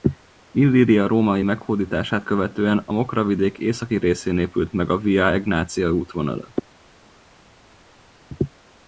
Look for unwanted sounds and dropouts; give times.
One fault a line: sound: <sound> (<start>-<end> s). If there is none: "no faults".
no faults